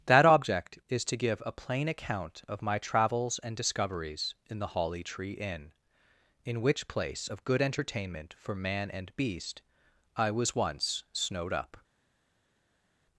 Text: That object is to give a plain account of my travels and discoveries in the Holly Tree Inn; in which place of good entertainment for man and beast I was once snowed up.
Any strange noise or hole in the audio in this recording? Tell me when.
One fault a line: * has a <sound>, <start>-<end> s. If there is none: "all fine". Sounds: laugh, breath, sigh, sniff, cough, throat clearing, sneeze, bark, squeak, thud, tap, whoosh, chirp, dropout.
all fine